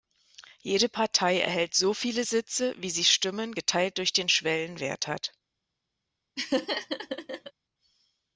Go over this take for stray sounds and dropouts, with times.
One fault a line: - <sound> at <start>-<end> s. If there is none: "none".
- laugh at 6.4-7.5 s